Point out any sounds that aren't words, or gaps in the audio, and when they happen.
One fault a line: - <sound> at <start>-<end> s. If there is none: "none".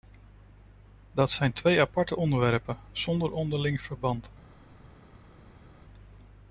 none